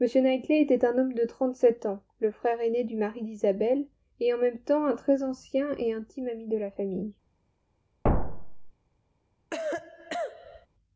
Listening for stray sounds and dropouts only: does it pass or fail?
fail